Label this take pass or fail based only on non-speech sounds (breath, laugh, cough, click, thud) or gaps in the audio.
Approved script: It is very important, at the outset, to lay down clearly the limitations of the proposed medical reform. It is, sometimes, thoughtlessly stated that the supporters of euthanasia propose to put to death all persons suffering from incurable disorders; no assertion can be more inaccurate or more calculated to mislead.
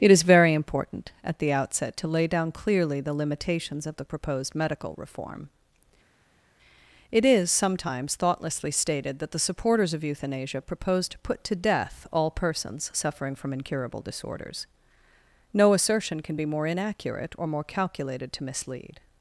pass